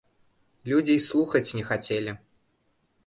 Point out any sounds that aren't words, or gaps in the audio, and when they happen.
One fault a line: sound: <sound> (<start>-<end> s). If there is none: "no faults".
no faults